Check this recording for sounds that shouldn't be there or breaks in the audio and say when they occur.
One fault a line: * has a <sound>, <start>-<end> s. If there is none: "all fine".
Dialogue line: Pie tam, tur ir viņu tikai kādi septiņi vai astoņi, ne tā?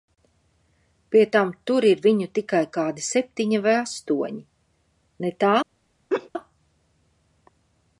* has a laugh, 6.1-6.3 s